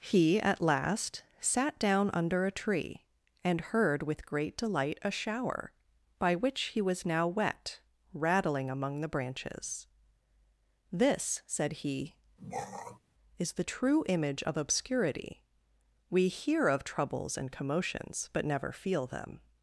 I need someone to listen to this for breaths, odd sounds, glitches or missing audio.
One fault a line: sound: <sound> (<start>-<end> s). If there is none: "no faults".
sound: throat clearing (12.4-13.0 s)